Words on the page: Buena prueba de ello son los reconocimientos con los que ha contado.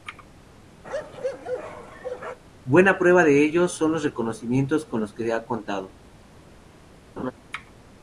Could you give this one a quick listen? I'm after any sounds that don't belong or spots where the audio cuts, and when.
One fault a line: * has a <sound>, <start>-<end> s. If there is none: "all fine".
* has a bark, 0.8-2.4 s
* has a laugh, 7.2-7.3 s